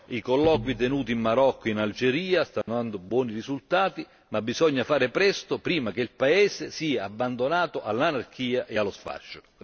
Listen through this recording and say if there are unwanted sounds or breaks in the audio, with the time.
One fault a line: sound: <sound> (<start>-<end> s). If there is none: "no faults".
sound: dropout (2.6-2.7 s)